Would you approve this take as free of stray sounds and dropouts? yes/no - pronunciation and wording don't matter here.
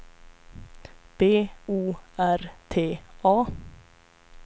yes